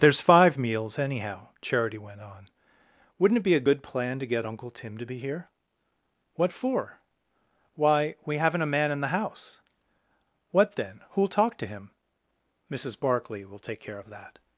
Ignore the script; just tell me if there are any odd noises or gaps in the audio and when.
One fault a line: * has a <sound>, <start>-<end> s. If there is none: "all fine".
all fine